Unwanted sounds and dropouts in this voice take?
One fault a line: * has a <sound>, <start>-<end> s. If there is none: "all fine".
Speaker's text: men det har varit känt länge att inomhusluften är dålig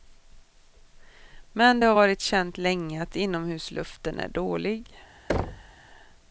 * has a thud, 5.3-5.7 s